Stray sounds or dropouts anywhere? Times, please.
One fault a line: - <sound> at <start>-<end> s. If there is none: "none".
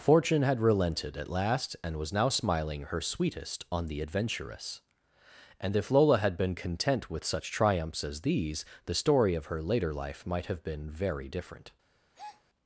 - breath at 12.1-12.4 s